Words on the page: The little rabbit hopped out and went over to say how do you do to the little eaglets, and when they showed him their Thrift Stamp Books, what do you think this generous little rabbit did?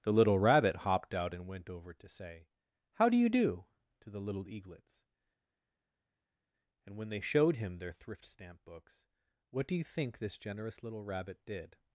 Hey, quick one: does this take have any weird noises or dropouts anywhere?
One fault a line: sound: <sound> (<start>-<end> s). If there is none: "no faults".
no faults